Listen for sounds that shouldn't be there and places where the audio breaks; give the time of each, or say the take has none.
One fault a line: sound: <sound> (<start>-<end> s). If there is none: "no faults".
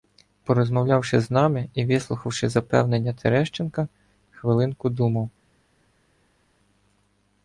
no faults